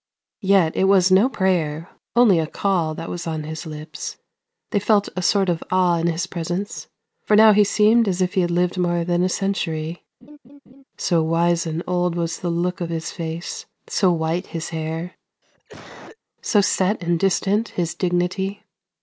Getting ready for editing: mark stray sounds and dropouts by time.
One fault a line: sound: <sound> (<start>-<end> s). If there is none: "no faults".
sound: laugh (10.2-10.8 s)
sound: cough (15.4-16.2 s)